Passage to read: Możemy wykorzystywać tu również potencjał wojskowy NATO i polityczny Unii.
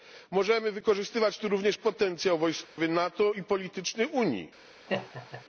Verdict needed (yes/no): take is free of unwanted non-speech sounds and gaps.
no